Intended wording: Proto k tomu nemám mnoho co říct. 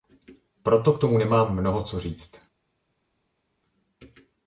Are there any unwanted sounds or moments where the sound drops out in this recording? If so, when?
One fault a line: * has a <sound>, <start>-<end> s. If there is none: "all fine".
all fine